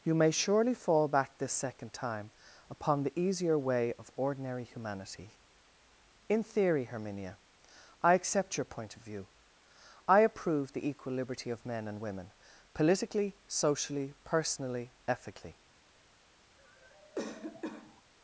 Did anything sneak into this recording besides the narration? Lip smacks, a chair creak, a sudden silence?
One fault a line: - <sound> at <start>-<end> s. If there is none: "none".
- cough at 16.6-18.0 s